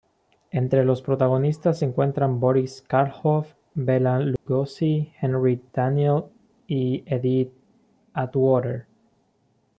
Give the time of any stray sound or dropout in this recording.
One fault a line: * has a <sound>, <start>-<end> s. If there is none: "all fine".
* has a dropout, 4.4-4.5 s